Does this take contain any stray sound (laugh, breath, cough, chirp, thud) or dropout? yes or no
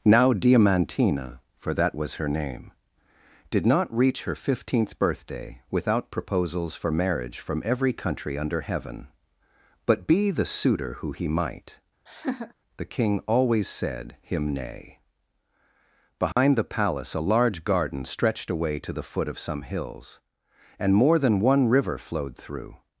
yes